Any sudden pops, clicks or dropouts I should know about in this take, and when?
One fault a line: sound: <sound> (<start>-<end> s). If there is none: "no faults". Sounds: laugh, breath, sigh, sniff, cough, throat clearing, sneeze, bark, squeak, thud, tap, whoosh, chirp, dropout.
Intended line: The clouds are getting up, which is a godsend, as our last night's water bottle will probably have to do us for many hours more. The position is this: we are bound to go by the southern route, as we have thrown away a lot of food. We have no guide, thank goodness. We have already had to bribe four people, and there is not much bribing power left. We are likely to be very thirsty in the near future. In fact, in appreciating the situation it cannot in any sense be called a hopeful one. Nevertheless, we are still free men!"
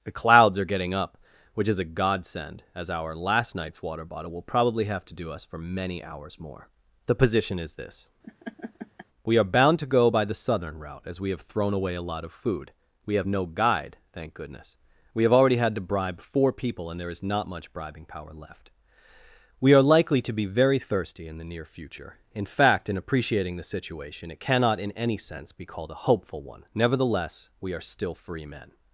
sound: laugh (8.2-9.1 s)